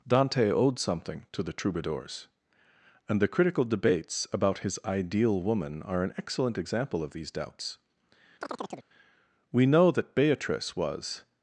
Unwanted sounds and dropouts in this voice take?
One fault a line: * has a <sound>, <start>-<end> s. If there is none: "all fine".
* has a chirp, 8.4-8.9 s